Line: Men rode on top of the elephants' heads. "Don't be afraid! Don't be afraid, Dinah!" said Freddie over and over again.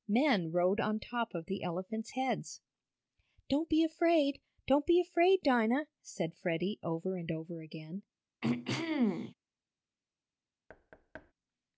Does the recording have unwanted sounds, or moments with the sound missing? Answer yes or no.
yes